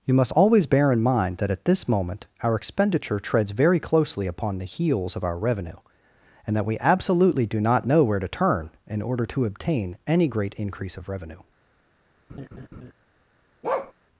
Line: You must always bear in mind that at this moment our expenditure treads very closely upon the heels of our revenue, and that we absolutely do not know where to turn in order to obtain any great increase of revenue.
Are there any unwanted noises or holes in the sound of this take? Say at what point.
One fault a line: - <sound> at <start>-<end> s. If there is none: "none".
- laugh at 12.3-12.9 s
- bark at 13.6-13.9 s